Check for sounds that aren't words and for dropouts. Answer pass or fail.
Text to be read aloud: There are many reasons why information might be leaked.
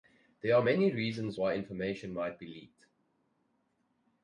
pass